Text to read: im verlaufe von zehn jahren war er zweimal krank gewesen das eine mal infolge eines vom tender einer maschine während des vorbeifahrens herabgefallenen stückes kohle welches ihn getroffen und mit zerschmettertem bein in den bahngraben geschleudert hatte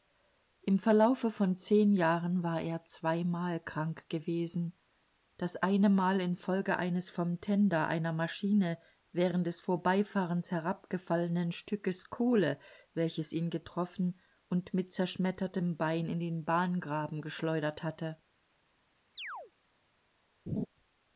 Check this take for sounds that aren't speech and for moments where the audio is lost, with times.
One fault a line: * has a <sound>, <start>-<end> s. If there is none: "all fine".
* has a chirp, 19.1-19.5 s
* has a laugh, 20.5-20.7 s